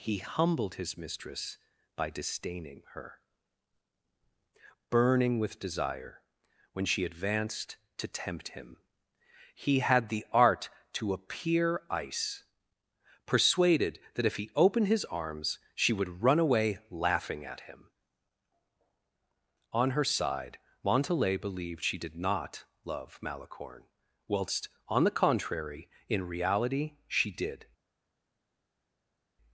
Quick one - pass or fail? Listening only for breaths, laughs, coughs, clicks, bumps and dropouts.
pass